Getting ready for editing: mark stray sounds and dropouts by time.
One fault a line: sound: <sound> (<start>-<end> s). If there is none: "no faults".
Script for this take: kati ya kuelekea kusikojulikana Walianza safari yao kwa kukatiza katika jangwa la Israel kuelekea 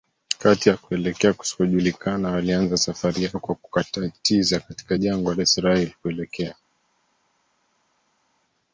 no faults